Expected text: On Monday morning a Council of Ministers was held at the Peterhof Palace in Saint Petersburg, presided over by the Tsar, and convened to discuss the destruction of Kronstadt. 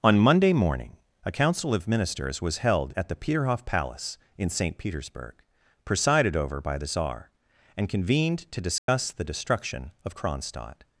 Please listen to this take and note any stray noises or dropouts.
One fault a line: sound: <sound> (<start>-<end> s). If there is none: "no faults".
sound: dropout (8.8-8.9 s)